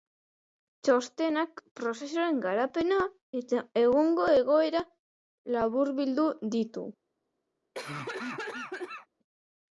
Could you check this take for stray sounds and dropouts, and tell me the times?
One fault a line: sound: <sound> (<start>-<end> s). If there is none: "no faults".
sound: cough (7.7-9.1 s)